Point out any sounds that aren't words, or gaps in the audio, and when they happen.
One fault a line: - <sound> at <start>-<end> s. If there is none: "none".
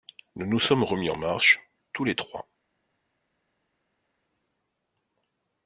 none